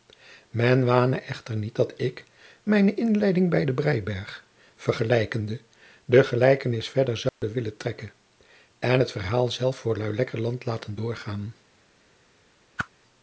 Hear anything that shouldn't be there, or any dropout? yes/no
yes